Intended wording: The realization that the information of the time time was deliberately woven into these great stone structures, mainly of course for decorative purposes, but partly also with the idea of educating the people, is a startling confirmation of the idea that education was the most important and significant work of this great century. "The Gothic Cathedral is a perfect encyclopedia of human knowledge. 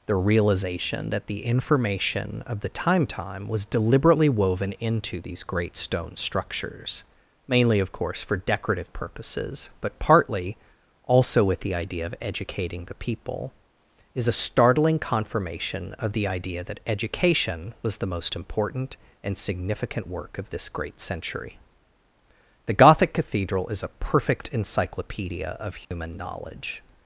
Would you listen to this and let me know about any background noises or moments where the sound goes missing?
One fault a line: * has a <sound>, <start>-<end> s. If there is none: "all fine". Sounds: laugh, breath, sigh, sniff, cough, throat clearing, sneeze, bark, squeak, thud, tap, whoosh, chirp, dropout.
* has a dropout, 25.8-25.9 s